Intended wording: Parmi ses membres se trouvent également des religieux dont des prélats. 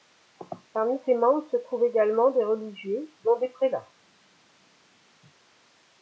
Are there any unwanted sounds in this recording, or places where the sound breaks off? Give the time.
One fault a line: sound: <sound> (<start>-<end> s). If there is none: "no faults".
no faults